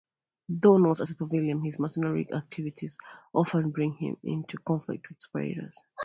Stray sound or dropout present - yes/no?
no